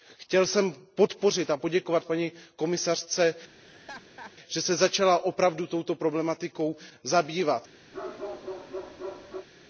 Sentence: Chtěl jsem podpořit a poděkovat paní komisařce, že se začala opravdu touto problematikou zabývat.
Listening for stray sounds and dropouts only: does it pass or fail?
fail